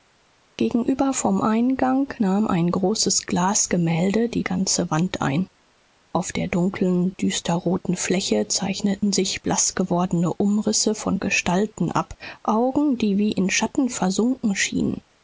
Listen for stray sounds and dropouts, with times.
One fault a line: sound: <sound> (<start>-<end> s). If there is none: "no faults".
no faults